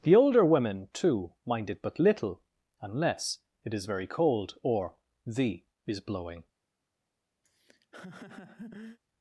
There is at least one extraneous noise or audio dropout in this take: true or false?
true